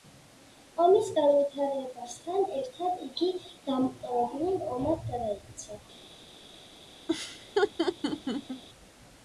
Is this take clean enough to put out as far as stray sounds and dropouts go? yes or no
no